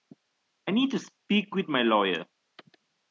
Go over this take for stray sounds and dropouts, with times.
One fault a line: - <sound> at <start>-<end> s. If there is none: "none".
none